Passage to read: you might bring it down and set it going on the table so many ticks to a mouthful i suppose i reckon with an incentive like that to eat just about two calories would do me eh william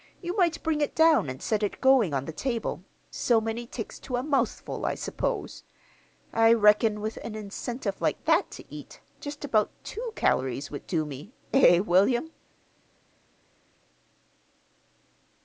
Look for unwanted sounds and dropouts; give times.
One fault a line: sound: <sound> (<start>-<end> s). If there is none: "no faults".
no faults